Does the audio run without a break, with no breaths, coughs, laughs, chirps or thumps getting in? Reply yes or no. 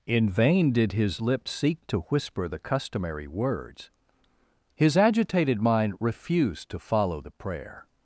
yes